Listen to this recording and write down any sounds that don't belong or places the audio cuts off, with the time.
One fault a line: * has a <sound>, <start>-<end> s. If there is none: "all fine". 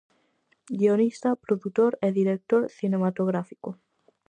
all fine